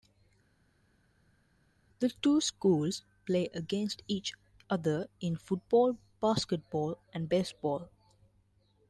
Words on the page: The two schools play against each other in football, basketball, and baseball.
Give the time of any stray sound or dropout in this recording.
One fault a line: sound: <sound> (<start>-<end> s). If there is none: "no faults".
no faults